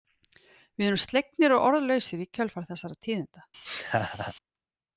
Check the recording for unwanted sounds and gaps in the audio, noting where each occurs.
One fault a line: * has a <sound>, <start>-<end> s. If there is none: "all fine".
* has a laugh, 3.6-4.3 s